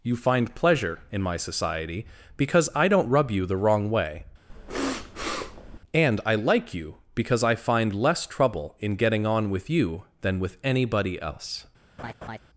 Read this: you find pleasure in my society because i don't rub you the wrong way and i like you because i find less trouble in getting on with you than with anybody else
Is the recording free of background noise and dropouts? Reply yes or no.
no